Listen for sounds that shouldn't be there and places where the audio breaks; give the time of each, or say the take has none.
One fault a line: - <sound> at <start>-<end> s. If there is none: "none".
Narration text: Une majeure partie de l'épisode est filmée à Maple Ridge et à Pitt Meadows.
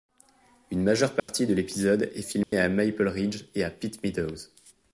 - dropout at 1.2-1.3 s
- dropout at 2.4-2.5 s